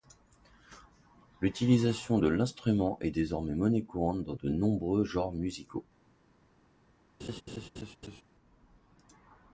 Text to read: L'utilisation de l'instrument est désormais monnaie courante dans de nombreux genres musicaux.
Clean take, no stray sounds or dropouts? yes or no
no